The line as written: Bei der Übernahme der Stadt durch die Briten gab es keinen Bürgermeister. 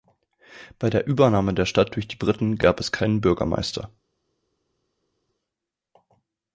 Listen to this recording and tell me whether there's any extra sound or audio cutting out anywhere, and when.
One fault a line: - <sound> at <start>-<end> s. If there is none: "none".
none